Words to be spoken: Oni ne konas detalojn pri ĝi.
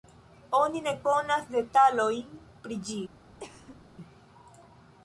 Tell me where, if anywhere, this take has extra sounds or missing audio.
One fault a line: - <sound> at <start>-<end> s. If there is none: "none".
- cough at 3.4-3.8 s